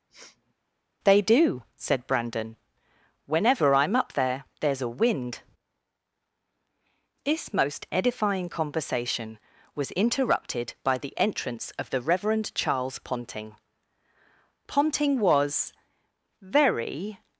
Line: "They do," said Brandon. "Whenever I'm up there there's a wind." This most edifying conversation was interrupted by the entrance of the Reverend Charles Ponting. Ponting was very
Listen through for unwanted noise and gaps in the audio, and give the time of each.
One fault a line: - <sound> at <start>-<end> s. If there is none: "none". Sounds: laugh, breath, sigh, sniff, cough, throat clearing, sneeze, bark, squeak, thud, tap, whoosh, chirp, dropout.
- sniff at 0.1-0.5 s